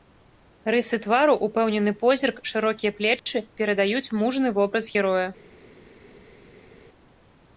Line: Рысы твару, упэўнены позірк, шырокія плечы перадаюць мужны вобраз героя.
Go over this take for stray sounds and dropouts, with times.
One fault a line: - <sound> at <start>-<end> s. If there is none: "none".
none